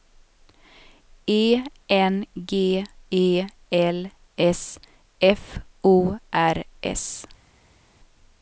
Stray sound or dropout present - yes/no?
no